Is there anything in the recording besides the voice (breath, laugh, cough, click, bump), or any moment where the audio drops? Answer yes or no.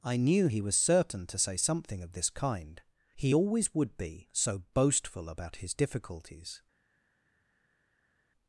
no